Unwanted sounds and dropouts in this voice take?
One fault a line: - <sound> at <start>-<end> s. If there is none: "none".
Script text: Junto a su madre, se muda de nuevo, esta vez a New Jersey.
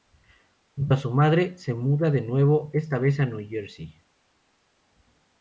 none